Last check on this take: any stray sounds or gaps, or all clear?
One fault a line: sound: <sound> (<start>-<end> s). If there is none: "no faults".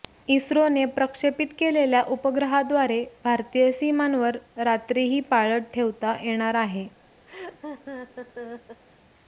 sound: laugh (7.3-8.8 s)